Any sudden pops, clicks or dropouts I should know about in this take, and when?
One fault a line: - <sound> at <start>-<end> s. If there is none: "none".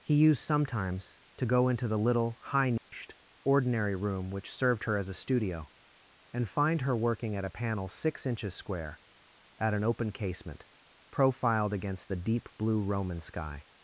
- dropout at 2.8-2.9 s